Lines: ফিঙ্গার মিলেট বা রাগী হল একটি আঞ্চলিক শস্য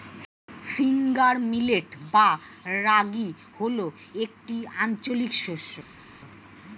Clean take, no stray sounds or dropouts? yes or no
yes